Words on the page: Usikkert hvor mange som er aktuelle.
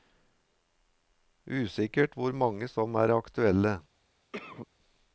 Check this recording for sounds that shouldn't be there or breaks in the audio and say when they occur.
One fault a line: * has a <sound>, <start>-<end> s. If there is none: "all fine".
* has a cough, 4.3-4.7 s